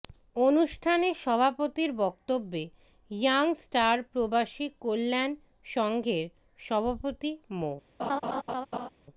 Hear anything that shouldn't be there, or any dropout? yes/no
yes